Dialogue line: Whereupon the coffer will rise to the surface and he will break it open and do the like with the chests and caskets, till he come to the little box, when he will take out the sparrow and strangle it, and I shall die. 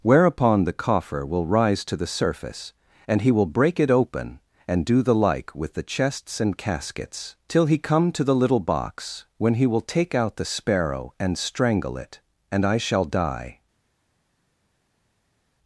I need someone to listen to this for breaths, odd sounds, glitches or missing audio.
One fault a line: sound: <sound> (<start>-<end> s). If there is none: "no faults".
no faults